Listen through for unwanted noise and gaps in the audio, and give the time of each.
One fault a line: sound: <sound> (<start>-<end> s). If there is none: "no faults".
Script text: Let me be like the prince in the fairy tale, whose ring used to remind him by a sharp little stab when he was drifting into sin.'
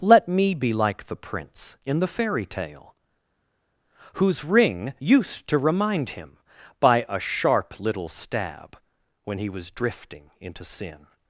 no faults